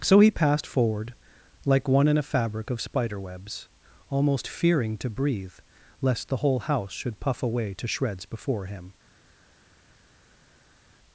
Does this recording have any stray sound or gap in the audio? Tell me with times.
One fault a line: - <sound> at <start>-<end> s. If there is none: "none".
none